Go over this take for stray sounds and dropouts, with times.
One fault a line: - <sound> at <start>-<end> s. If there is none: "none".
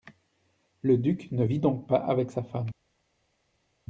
none